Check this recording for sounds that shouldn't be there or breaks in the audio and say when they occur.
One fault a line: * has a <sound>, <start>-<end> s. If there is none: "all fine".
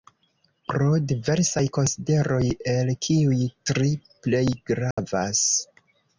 * has a dropout, 4.9-5.0 s